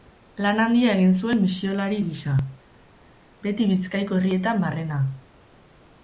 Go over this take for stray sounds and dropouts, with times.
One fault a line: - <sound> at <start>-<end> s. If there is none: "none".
none